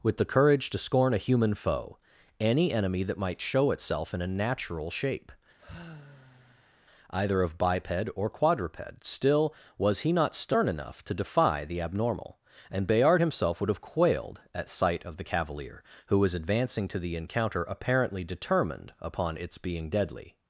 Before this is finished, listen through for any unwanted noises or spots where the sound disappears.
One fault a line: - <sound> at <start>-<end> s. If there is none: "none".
- sigh at 5.6-6.8 s